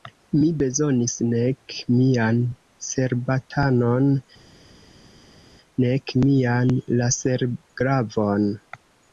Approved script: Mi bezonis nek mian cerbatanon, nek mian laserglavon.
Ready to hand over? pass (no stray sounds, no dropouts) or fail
pass